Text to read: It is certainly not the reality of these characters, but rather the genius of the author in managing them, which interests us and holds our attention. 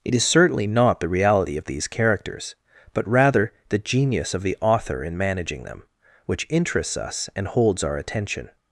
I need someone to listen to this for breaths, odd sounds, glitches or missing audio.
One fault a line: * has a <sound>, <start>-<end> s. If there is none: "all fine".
all fine